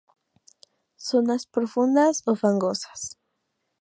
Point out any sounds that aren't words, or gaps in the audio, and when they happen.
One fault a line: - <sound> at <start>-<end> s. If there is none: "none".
none